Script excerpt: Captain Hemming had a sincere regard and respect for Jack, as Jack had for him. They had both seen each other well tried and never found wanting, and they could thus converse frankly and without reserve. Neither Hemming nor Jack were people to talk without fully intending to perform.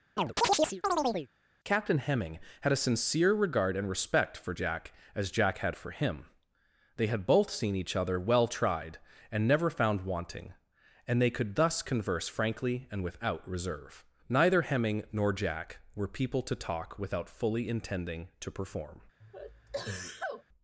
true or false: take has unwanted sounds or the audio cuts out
true